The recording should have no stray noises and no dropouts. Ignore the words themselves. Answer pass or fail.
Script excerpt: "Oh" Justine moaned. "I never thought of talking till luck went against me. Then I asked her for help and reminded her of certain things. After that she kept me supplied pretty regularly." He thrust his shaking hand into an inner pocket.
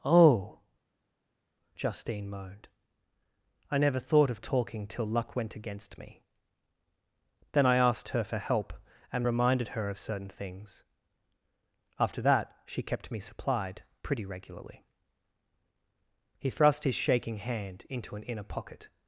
pass